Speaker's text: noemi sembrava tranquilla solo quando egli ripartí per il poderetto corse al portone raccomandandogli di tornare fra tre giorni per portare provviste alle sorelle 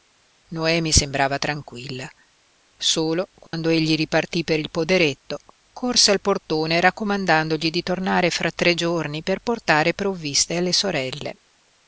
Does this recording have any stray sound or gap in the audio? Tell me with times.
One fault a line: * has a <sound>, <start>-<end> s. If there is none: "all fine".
* has a dropout, 3.5-3.5 s